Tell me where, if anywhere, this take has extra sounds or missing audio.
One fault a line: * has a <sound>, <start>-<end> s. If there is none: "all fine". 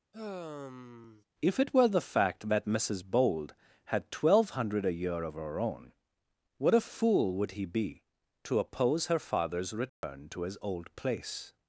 * has a sigh, 0.1-1.2 s
* has a dropout, 9.9-10.0 s